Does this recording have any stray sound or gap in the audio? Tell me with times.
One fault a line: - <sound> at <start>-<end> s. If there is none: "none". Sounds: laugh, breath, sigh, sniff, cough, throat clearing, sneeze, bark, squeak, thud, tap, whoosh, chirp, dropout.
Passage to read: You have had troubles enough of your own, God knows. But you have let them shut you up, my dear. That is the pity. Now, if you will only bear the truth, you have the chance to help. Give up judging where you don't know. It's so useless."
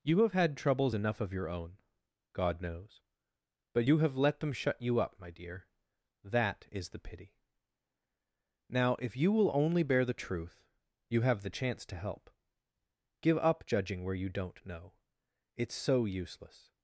none